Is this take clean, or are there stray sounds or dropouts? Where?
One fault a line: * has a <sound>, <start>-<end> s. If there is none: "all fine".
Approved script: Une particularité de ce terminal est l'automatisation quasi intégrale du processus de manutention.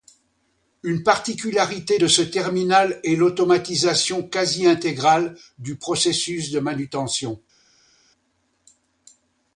all fine